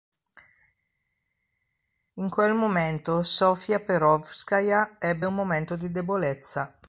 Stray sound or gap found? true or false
false